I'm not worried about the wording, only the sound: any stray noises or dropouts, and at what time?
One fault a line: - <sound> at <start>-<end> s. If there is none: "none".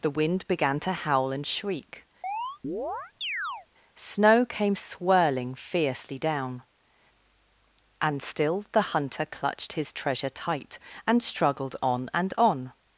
- chirp at 2.2-3.7 s